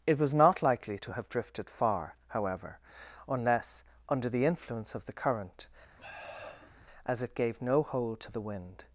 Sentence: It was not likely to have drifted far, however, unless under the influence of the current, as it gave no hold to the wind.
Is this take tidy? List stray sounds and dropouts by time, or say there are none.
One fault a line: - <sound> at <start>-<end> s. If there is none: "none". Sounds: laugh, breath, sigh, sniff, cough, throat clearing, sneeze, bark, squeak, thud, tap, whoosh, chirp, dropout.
- sniff at 6.0-6.9 s